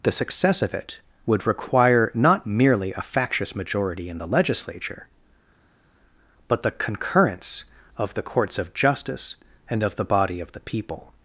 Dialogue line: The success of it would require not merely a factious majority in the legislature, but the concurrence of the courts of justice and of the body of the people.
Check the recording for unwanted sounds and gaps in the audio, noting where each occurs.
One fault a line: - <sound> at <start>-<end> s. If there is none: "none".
none